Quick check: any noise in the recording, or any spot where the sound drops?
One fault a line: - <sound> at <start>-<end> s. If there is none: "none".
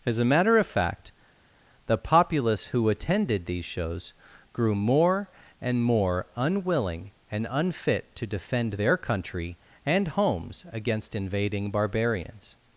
none